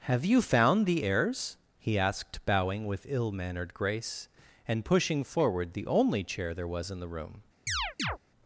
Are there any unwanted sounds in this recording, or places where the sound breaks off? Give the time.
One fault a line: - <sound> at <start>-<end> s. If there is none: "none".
- chirp at 7.7-8.2 s